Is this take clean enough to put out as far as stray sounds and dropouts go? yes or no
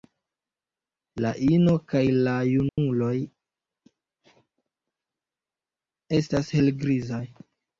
no